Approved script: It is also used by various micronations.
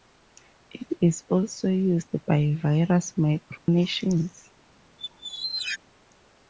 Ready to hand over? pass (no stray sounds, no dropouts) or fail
fail